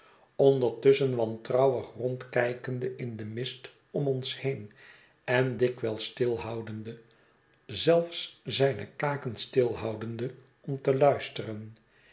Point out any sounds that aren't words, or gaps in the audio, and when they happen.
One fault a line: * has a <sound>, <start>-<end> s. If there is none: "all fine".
all fine